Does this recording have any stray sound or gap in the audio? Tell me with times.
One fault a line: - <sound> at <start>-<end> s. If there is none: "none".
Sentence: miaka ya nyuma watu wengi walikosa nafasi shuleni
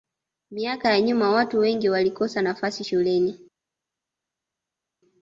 none